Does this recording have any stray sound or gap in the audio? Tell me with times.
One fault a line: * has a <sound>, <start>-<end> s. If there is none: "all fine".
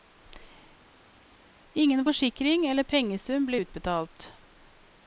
all fine